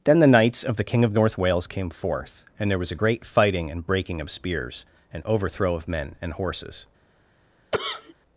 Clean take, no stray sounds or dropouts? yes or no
no